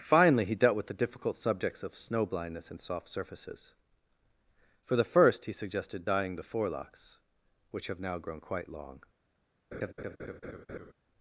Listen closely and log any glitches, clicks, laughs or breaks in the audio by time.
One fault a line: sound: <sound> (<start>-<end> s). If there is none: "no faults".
sound: laugh (9.7-10.9 s)